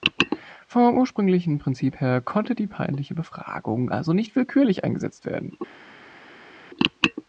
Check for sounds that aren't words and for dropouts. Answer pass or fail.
pass